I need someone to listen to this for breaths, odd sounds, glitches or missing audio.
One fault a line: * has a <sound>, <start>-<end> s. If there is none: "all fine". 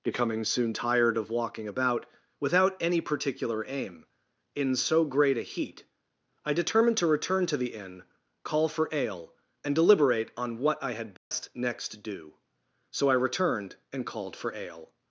* has a dropout, 11.2-11.3 s